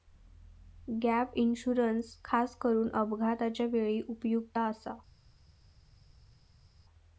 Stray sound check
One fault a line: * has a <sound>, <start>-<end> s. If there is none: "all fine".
all fine